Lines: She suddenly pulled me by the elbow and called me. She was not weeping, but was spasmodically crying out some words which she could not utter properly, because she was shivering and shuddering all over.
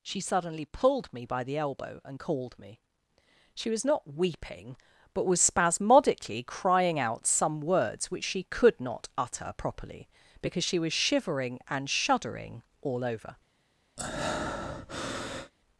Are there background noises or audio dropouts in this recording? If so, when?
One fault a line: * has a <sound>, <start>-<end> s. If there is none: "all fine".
* has a breath, 14.0-15.5 s